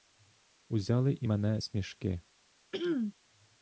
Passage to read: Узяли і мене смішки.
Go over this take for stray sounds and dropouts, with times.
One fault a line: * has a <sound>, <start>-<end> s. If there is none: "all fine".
* has a throat clearing, 2.7-3.1 s